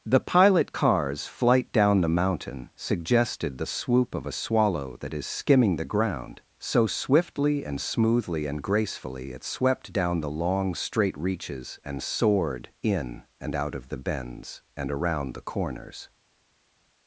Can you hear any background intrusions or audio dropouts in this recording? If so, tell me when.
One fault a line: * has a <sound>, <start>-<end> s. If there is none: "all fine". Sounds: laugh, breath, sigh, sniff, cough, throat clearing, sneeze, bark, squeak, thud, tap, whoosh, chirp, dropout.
all fine